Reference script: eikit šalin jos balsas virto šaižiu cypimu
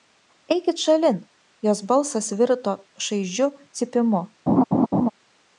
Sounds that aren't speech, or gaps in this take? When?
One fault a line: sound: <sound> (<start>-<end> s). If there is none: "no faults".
sound: laugh (4.5-5.1 s)